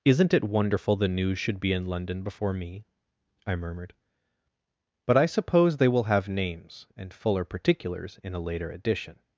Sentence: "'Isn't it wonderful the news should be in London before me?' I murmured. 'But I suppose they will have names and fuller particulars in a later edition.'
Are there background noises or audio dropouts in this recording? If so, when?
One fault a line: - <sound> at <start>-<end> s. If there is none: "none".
none